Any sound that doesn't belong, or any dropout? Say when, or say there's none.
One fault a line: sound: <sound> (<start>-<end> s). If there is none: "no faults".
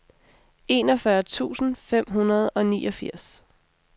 no faults